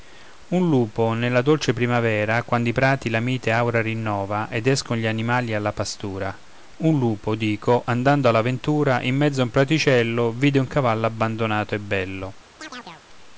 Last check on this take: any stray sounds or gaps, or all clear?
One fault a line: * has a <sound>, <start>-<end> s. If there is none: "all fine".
* has a chirp, 12.6-13.0 s